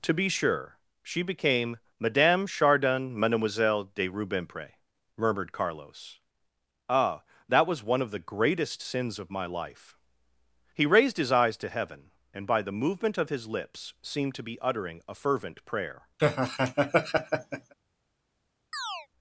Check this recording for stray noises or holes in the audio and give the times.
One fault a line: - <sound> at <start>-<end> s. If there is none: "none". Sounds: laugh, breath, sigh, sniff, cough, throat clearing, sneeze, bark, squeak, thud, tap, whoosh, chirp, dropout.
- laugh at 16.2-17.7 s
- chirp at 18.7-19.1 s